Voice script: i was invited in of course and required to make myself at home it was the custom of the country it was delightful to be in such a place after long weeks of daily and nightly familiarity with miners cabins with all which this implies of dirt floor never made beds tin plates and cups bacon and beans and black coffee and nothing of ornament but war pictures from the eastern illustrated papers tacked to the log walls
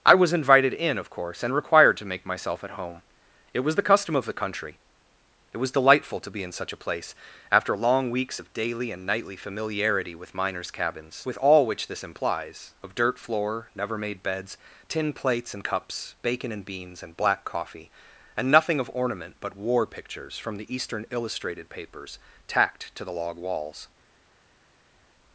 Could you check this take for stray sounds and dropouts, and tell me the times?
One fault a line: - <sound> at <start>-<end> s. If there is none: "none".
none